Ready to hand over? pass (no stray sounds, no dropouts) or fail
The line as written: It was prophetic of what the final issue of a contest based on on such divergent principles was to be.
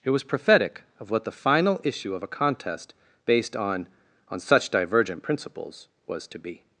pass